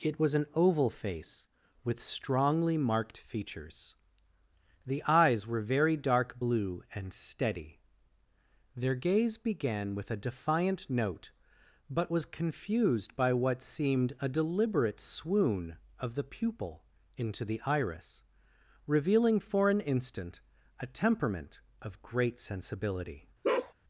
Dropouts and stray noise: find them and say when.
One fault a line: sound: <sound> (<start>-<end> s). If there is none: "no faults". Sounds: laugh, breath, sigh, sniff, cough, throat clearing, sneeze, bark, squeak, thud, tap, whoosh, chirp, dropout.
sound: bark (23.4-23.7 s)